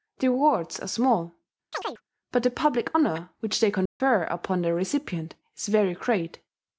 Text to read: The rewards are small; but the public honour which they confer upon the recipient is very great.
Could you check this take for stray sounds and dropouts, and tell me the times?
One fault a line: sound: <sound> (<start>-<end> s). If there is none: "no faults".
sound: chirp (1.7-2.0 s)
sound: dropout (3.9-4.0 s)